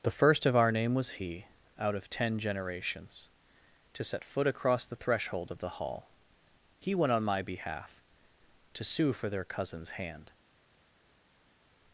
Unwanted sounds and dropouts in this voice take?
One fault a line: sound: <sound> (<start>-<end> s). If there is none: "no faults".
no faults